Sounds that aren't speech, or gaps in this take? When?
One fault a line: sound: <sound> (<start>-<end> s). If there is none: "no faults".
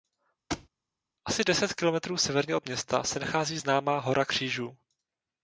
sound: thud (0.5-0.7 s)